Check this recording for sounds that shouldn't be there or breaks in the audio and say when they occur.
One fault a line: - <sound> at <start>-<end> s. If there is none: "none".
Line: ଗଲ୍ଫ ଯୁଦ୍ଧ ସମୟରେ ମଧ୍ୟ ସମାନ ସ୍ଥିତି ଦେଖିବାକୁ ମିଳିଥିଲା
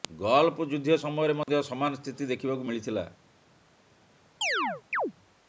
- dropout at 1.4-1.5 s
- chirp at 4.4-5.1 s